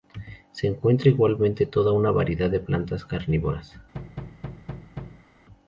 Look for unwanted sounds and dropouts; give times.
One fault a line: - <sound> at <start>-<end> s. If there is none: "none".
- thud at 3.9-5.3 s